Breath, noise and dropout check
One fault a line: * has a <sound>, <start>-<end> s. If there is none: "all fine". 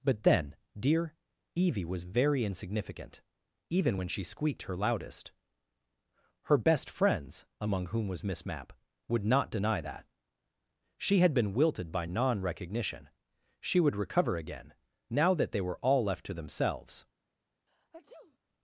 * has a sneeze, 17.7-18.4 s